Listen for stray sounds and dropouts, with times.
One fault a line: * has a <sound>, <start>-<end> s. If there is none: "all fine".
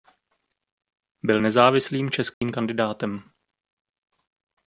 * has a dropout, 2.3-2.4 s